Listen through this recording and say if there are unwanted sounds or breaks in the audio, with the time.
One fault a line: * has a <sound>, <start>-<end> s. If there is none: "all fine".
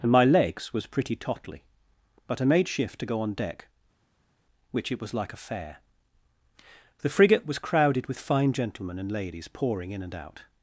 all fine